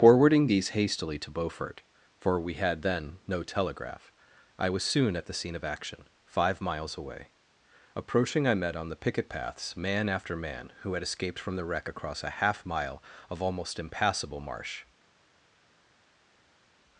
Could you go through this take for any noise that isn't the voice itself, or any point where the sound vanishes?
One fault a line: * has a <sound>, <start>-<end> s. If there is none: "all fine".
all fine